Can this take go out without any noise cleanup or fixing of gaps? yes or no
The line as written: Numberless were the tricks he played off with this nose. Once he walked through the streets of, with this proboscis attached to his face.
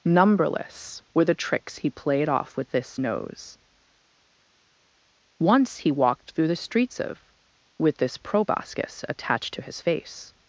yes